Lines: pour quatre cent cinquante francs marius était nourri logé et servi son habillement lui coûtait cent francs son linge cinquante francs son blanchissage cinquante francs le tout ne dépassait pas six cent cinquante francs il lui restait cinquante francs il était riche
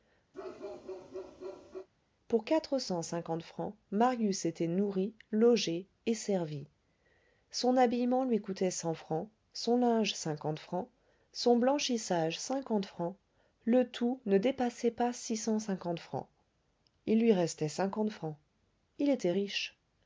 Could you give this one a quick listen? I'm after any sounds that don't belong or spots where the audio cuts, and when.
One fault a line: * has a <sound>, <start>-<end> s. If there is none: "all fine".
* has a bark, 0.3-1.9 s